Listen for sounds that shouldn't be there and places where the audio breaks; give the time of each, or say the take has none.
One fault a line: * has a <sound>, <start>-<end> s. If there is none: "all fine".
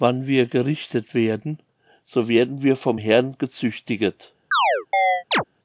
* has a chirp, 4.5-5.4 s